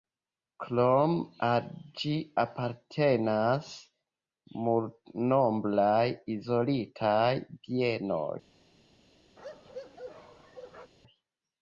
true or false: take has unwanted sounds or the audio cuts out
true